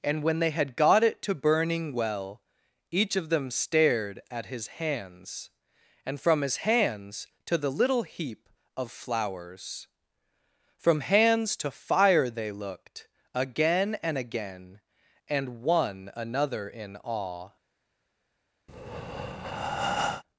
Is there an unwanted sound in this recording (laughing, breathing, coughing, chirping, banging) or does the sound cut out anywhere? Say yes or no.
yes